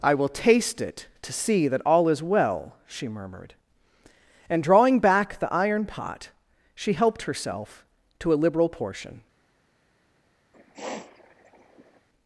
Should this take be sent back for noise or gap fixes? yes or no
yes